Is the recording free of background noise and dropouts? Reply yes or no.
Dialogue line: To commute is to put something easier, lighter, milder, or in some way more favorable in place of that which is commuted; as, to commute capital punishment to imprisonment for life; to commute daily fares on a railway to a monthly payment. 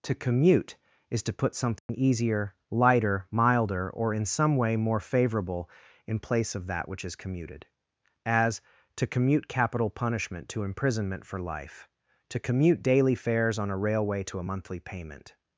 no